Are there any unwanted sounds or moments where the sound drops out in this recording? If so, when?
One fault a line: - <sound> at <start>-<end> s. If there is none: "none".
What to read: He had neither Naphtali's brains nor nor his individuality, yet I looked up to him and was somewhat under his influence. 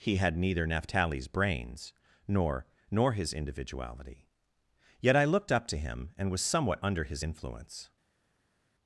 none